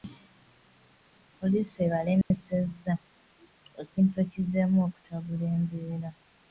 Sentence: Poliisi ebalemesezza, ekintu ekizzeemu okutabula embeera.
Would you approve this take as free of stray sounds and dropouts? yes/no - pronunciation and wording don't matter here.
no